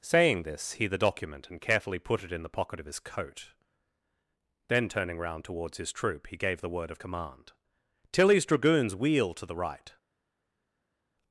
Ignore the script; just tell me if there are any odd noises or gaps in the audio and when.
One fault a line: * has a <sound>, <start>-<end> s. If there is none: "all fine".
all fine